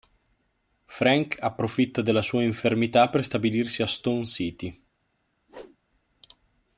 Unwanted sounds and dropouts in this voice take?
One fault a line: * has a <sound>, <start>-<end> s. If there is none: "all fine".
* has a whoosh, 5.5-5.8 s